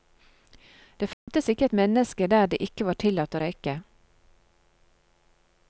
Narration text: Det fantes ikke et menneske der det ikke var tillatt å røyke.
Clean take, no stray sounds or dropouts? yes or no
no